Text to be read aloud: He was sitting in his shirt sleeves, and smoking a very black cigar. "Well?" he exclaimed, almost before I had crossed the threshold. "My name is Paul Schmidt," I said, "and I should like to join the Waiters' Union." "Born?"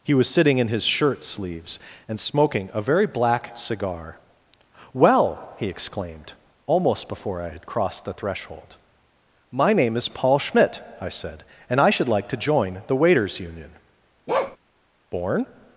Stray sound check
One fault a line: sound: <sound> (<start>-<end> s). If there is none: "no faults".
sound: bark (14.3-14.6 s)